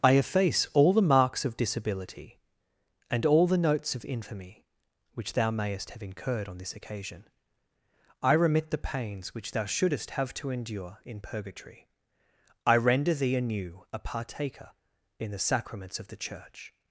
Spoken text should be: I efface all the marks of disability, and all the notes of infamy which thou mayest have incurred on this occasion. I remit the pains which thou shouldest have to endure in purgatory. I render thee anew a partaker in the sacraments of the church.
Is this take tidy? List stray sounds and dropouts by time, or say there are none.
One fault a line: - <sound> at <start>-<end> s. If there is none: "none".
none